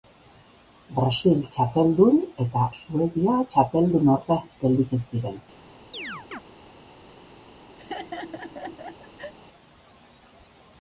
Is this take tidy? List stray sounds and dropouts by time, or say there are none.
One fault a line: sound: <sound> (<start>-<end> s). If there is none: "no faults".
sound: chirp (5.9-6.4 s)
sound: laugh (7.8-9.3 s)